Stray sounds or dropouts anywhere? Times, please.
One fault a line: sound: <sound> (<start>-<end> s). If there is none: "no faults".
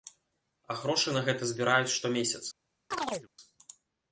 sound: chirp (2.9-3.3 s)